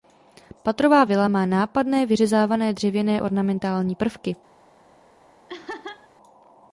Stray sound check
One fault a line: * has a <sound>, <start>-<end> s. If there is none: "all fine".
* has a laugh, 5.5-6.1 s